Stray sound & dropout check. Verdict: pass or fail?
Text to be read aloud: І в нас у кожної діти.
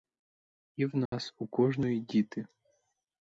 fail